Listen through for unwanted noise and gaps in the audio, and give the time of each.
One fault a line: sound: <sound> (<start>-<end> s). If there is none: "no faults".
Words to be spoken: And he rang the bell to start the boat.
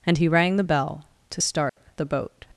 sound: dropout (1.7-1.8 s)